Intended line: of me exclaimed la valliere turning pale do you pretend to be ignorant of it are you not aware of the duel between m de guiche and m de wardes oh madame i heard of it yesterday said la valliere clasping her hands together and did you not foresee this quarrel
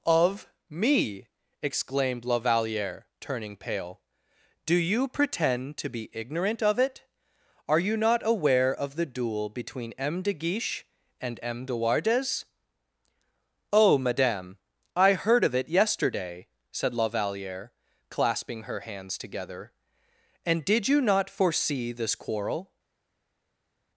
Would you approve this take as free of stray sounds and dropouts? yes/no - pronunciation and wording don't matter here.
yes